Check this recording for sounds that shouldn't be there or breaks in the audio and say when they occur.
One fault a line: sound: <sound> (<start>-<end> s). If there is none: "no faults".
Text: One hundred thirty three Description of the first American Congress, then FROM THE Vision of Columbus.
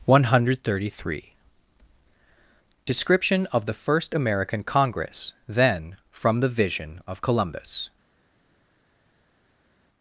no faults